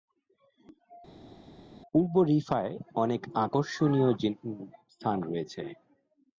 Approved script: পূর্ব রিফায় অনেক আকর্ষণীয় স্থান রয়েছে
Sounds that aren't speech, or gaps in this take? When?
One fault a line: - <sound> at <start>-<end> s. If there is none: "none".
none